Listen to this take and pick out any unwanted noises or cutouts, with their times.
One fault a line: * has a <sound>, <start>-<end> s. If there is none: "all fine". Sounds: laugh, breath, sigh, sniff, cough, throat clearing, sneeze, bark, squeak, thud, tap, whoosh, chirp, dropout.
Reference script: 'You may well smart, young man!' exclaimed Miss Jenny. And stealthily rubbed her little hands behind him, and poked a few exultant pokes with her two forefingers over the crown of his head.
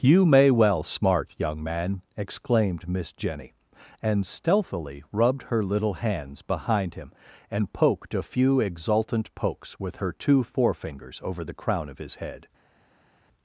all fine